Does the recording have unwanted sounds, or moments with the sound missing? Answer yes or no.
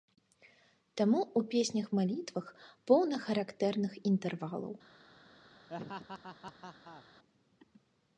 yes